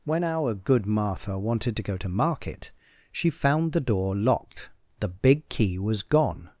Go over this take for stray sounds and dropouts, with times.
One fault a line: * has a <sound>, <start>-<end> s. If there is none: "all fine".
all fine